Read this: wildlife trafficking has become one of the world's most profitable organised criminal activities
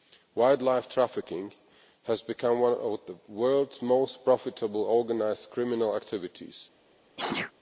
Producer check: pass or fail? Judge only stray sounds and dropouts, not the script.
fail